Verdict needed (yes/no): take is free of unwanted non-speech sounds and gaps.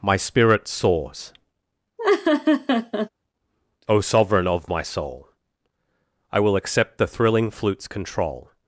no